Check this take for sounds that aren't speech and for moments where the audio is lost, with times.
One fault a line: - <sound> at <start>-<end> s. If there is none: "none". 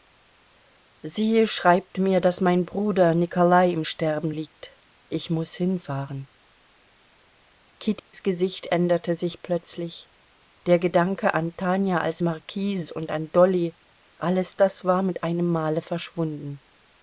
- dropout at 8.0-8.1 s